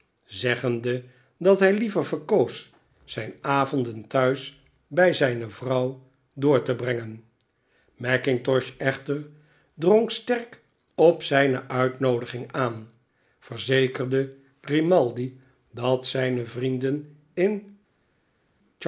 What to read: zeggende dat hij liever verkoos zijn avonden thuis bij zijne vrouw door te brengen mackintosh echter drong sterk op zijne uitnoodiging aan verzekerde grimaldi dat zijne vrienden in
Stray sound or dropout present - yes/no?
no